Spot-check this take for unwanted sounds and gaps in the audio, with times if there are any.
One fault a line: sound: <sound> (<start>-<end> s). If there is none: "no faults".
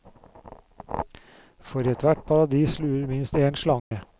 sound: dropout (3.8-3.9 s)